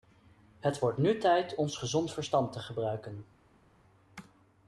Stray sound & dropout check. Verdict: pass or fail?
pass